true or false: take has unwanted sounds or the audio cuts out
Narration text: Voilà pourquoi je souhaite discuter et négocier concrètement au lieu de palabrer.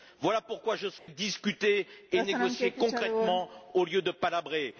true